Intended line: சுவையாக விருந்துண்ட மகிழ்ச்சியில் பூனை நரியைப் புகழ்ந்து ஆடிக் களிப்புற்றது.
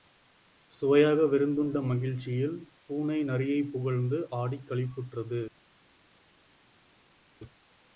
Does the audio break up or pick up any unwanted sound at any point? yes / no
no